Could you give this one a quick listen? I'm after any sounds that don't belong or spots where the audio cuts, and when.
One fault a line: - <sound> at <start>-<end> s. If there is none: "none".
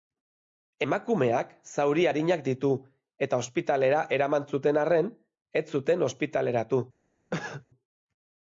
- cough at 7.3-7.7 s